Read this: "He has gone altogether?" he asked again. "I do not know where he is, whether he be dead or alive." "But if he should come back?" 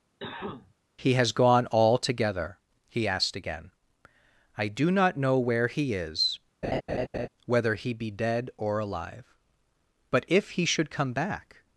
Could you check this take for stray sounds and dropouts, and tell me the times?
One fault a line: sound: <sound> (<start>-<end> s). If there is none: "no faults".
sound: cough (0.2-0.7 s)
sound: laugh (6.6-7.3 s)